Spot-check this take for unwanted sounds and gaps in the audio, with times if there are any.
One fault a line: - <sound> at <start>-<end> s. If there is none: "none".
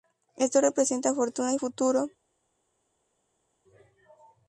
none